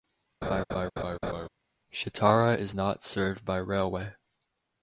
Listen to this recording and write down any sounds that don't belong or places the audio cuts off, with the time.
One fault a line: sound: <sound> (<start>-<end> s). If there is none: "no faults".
sound: laugh (0.4-1.5 s)